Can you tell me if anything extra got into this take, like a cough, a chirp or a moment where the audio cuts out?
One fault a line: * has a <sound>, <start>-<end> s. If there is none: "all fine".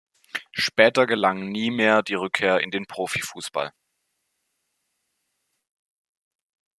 all fine